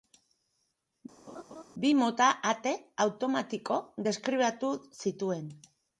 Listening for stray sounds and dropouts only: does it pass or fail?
fail